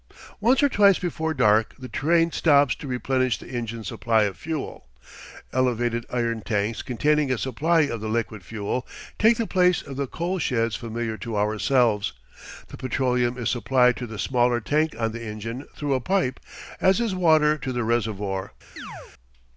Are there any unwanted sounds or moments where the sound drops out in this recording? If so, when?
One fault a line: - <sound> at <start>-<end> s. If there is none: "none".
- chirp at 18.8-19.1 s